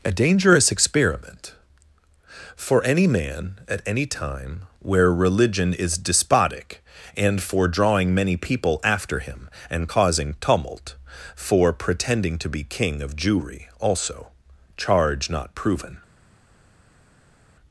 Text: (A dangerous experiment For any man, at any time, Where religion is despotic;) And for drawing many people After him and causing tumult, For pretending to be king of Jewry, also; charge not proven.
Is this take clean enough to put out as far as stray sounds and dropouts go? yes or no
yes